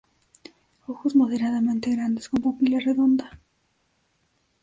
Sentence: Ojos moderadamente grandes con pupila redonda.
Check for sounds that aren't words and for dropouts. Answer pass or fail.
pass